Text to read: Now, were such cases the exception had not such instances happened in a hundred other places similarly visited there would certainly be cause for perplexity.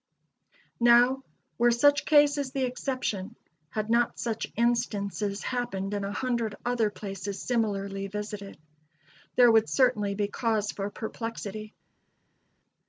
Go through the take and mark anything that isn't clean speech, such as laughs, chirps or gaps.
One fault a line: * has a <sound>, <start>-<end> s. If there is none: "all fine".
all fine